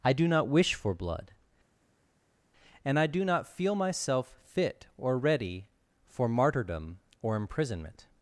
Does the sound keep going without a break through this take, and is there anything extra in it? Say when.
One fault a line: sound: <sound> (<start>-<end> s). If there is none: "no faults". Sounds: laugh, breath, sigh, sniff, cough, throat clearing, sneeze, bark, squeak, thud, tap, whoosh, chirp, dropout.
no faults